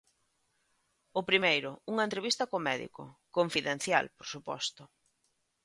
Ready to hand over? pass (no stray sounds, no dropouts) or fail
pass